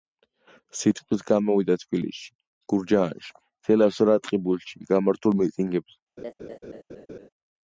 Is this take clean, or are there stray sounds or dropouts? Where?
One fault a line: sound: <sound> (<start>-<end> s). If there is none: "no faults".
sound: laugh (6.2-7.3 s)